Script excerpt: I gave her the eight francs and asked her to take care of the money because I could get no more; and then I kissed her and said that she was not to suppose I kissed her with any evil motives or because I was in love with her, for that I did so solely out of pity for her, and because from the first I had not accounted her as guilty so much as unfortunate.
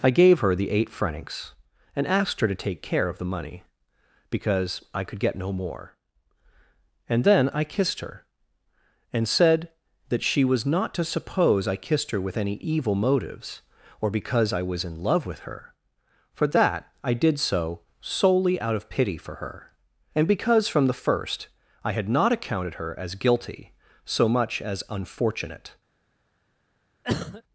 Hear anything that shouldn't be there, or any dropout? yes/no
yes